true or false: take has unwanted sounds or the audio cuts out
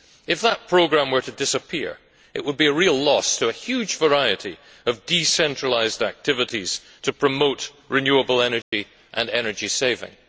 true